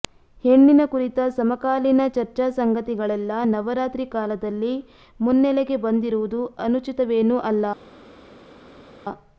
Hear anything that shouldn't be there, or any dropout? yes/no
no